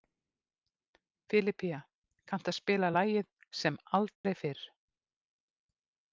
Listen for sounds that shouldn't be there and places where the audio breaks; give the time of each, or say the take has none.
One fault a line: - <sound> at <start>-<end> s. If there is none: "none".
- dropout at 4.2-4.2 s